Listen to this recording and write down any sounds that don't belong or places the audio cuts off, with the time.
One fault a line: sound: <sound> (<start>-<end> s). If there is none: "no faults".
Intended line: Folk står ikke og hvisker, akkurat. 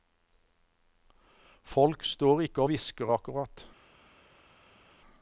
no faults